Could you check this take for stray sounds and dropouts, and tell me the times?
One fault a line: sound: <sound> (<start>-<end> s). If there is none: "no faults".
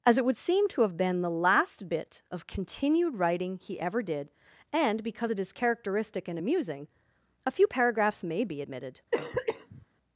sound: cough (9.1-9.9 s)